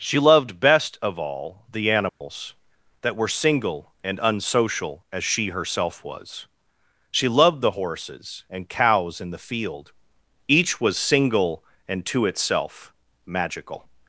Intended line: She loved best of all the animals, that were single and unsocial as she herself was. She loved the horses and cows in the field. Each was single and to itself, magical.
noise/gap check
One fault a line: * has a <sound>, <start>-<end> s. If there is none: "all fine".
* has a dropout, 2.1-2.2 s